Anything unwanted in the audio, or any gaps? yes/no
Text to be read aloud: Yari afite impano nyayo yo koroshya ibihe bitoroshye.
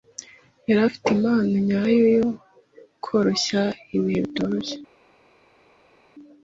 no